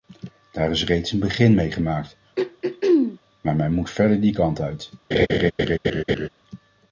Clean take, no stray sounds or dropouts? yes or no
no